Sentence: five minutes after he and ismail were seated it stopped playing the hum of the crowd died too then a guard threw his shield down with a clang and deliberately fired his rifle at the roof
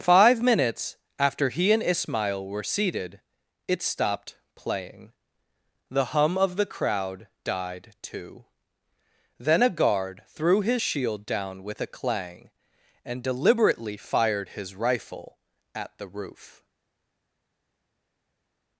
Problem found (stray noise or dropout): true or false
false